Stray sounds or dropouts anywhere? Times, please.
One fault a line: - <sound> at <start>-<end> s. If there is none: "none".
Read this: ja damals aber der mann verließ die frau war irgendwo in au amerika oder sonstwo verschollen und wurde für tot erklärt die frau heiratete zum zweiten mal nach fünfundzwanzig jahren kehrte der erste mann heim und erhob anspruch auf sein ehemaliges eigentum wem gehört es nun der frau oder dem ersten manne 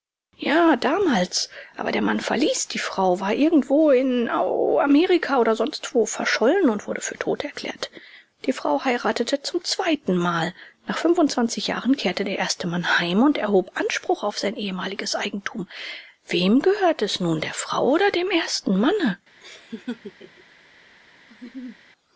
- laugh at 19.4-20.4 s
- laugh at 21.3-21.8 s